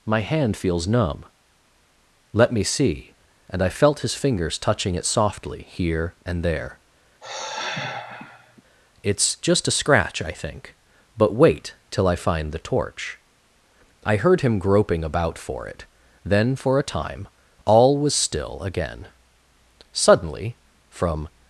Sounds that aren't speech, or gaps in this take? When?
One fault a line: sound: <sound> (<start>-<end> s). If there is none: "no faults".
sound: sigh (7.2-8.6 s)